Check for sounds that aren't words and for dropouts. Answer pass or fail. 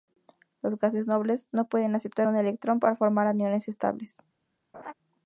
fail